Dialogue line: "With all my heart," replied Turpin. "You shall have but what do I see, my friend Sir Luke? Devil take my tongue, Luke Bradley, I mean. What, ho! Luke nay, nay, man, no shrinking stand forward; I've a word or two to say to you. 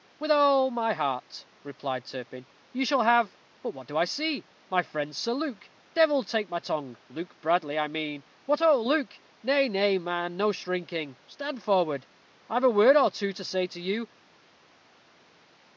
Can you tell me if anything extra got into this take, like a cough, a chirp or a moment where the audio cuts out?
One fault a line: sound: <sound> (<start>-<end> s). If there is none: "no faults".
no faults